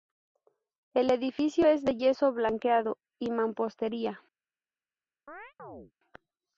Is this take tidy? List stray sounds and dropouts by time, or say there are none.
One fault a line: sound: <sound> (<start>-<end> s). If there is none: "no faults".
sound: chirp (5.3-5.9 s)